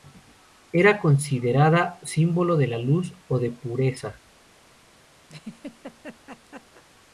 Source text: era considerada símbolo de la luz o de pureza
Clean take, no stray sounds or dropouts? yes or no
no